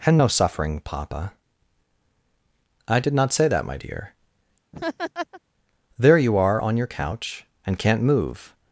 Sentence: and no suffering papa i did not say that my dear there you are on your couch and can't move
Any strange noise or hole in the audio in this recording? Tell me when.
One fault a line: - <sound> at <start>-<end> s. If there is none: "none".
- laugh at 4.7-5.4 s